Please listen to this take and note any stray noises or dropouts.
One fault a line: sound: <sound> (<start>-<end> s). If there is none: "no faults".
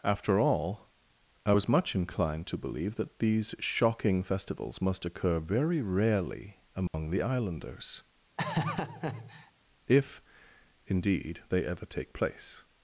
sound: dropout (6.9-6.9 s)
sound: laugh (8.4-9.5 s)